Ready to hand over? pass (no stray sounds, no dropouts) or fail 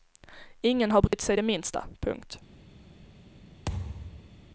fail